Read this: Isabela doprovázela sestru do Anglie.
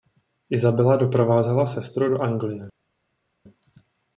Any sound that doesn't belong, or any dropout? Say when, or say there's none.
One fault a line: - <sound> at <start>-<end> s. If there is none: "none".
none